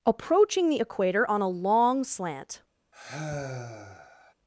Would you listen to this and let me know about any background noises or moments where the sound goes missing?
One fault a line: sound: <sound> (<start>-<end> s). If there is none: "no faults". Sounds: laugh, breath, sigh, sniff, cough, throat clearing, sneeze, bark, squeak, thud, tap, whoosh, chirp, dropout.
sound: sigh (2.9-4.3 s)